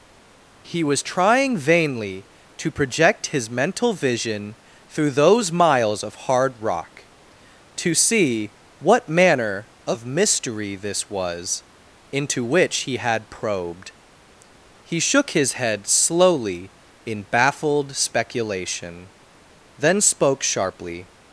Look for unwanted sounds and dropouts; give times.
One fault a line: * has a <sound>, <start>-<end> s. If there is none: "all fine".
all fine